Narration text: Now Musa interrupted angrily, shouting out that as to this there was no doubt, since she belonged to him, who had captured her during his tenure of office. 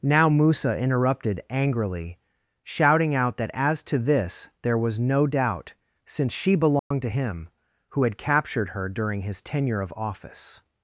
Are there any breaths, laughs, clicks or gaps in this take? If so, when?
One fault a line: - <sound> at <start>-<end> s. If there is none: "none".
- dropout at 6.8-6.9 s